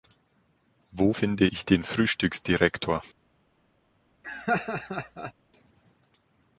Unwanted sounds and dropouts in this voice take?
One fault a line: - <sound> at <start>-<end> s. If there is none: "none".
- laugh at 4.2-5.3 s